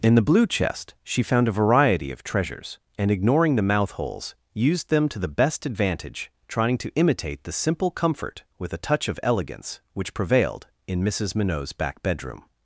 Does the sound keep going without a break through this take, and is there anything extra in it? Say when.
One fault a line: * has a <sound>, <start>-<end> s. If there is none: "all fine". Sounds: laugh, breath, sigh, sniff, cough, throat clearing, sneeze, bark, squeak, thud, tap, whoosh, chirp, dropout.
all fine